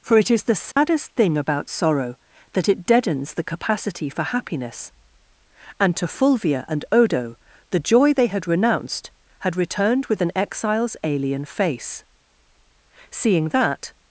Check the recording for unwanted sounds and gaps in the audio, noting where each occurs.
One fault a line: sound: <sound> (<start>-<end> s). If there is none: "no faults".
sound: dropout (0.7-0.8 s)